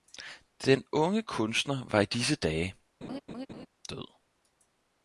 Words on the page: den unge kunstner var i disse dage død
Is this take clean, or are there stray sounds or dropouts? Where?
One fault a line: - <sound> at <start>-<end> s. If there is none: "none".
- laugh at 3.0-3.7 s